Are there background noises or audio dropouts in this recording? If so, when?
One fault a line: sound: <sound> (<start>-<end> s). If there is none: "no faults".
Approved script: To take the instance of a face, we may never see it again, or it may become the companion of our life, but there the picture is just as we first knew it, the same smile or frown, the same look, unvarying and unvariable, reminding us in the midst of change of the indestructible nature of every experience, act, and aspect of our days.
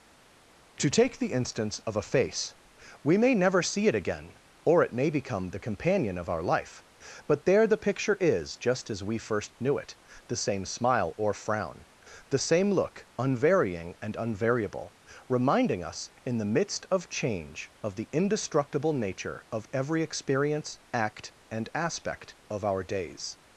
no faults